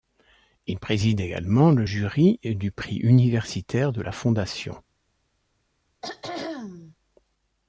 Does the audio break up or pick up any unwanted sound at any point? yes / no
yes